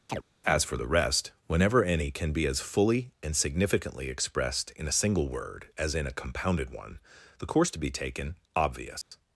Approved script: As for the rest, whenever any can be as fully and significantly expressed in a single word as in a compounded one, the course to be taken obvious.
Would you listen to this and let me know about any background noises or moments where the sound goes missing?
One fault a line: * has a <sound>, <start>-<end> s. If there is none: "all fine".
* has a chirp, 0.1-0.2 s
* has a dropout, 9.0-9.1 s